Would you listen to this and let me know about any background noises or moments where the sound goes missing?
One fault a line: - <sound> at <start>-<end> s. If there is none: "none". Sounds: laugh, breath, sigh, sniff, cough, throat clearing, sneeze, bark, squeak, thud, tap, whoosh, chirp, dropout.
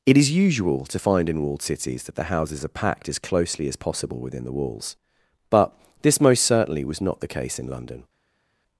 none